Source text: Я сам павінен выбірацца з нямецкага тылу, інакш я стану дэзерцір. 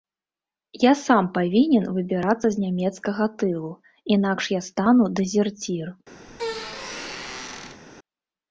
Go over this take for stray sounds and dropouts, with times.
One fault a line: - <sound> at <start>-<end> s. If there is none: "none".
- squeak at 6.3-7.8 s